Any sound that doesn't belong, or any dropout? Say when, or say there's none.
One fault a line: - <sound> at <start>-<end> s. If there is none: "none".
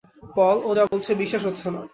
- dropout at 0.9-0.9 s